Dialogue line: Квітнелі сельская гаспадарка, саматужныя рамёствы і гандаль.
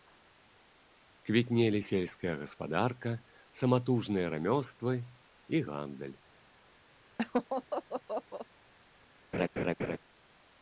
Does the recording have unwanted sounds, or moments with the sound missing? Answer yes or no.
yes